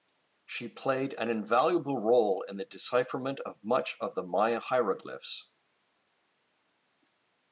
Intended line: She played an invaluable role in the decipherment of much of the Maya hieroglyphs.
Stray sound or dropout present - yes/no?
no